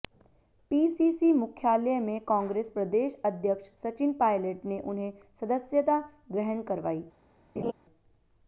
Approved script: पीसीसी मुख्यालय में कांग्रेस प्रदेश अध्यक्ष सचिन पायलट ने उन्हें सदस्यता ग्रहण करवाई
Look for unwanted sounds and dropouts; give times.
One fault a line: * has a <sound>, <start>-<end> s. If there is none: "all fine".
* has a laugh, 7.6-7.7 s